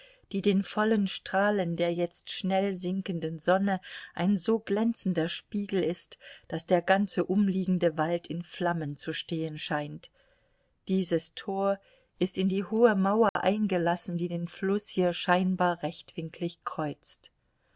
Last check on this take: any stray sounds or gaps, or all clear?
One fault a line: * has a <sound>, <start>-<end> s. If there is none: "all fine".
* has a dropout, 13.3-13.4 s